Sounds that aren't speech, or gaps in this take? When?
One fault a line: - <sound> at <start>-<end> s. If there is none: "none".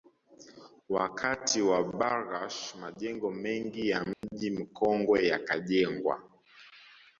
- dropout at 4.1-4.2 s